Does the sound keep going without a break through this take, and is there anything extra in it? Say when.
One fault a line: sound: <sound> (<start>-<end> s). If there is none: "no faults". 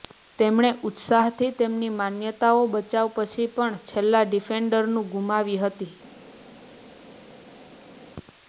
no faults